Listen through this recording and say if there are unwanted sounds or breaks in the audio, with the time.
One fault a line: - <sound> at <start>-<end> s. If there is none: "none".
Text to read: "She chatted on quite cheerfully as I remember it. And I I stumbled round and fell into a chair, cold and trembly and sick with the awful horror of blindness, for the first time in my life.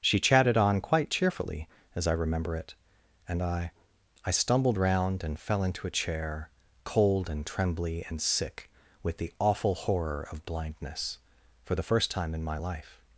none